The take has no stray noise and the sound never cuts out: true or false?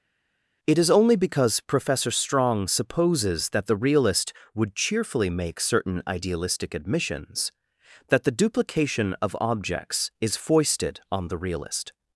true